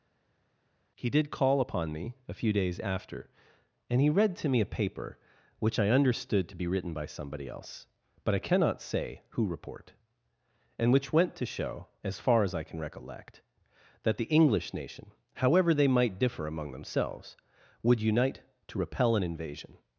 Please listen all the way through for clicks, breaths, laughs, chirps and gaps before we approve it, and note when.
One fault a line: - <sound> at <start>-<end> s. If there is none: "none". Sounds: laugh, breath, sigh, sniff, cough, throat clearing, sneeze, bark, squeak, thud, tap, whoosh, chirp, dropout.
none